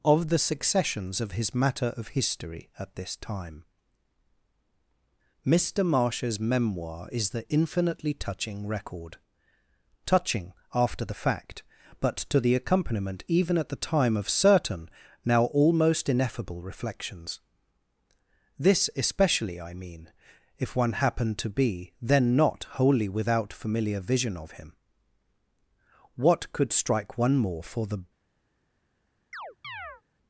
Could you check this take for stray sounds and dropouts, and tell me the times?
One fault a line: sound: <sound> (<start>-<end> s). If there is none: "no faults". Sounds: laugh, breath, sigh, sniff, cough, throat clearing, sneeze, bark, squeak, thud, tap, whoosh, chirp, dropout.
sound: chirp (29.3-30.0 s)